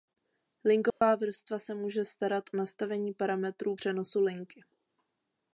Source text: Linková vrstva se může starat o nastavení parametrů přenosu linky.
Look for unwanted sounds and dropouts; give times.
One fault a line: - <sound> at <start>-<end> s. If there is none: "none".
- dropout at 0.9-1.0 s